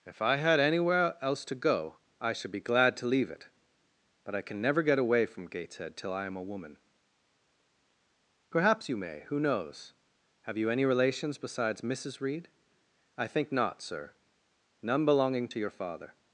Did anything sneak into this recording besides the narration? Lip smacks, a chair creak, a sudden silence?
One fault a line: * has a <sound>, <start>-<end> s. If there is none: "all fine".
all fine